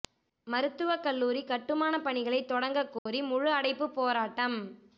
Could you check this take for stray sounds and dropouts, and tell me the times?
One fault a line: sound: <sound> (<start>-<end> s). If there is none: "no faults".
sound: dropout (3.0-3.1 s)